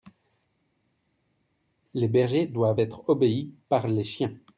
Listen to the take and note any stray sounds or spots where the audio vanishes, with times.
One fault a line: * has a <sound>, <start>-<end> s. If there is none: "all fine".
all fine